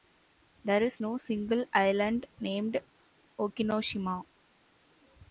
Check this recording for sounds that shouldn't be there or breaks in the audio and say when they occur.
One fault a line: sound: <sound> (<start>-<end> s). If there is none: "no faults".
no faults